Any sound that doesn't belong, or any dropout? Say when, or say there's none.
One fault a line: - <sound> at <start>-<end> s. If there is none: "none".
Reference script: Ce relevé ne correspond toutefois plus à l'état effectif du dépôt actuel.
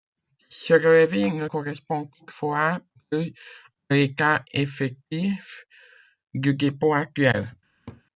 - laugh at 7.9-8.0 s